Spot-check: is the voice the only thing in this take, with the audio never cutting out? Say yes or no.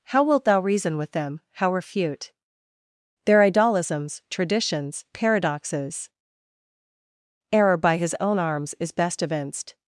yes